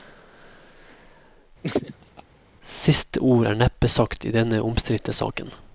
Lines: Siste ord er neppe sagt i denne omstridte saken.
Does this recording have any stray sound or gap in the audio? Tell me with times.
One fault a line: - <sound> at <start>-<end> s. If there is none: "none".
- laugh at 1.6-2.2 s